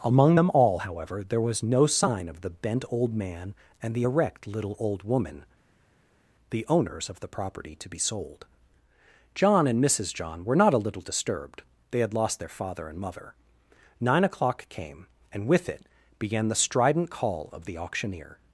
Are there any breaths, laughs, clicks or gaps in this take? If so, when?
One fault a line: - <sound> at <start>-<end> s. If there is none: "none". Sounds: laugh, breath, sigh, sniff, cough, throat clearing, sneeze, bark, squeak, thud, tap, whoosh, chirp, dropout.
none